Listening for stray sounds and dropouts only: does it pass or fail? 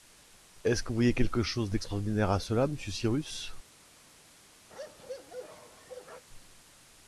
fail